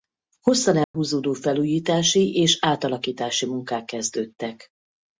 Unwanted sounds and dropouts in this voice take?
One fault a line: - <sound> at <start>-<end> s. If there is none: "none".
- dropout at 0.8-0.9 s